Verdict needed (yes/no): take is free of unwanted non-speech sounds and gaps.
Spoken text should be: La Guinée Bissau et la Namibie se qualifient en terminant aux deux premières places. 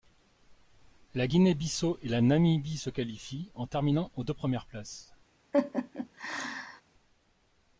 no